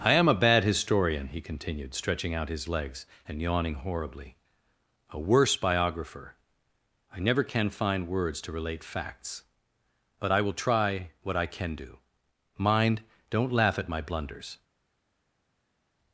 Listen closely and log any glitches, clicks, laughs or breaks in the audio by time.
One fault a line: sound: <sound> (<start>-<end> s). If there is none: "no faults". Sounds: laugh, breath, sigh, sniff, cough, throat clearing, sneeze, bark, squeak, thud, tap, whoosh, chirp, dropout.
no faults